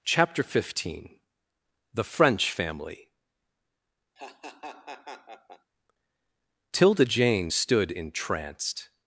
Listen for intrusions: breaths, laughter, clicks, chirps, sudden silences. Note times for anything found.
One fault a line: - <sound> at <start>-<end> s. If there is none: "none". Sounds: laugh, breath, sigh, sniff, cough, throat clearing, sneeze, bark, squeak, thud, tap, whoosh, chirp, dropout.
- laugh at 4.2-5.7 s